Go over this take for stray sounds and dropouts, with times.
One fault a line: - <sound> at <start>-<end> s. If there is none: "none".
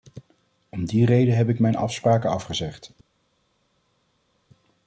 none